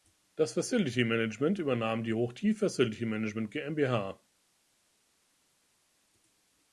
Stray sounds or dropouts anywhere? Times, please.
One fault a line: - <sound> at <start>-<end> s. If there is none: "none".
none